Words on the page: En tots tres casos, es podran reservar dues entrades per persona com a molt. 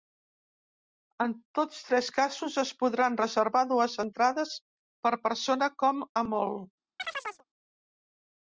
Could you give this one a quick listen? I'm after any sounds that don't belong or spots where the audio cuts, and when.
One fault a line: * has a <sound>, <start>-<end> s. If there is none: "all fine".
* has a chirp, 7.0-7.4 s